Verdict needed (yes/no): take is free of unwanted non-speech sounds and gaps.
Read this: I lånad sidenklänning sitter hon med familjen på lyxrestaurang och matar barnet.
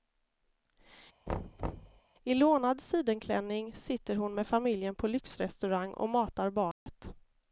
no